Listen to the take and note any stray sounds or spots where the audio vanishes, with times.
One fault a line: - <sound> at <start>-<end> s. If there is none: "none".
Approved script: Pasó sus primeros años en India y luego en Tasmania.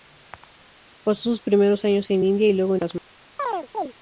- chirp at 3.4-3.9 s